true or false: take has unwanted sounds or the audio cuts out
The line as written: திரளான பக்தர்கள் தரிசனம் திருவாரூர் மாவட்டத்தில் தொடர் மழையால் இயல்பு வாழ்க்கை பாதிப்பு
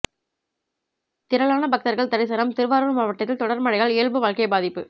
false